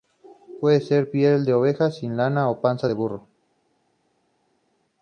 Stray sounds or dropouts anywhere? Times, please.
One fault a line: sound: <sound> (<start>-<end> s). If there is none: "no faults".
no faults